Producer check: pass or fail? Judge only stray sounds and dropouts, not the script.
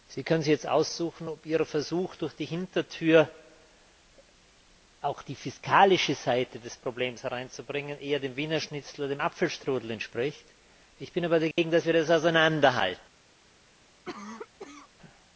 fail